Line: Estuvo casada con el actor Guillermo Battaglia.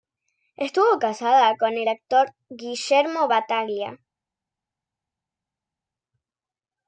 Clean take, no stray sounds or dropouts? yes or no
yes